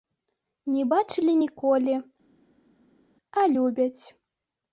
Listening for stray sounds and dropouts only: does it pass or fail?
pass